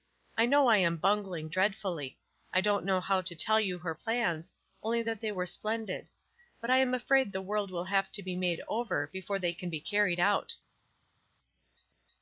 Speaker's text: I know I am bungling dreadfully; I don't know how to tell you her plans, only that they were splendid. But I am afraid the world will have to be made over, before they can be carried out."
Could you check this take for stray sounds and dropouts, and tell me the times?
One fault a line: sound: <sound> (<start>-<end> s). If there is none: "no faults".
no faults